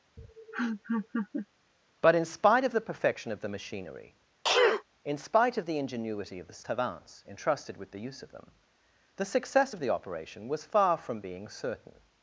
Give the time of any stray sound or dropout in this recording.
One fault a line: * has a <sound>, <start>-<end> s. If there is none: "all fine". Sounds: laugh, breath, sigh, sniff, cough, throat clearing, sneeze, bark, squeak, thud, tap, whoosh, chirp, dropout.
* has a laugh, 0.2-1.5 s
* has a sneeze, 4.4-4.8 s